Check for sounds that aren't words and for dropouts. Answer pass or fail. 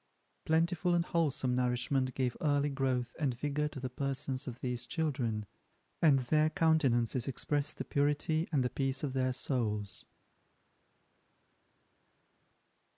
pass